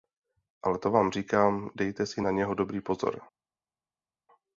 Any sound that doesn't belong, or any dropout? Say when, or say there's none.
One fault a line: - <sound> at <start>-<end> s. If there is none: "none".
none